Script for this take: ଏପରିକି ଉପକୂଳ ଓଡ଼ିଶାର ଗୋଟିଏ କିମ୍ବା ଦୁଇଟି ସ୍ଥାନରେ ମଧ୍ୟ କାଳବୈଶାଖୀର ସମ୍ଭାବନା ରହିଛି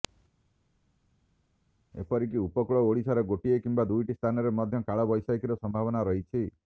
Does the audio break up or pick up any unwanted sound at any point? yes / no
no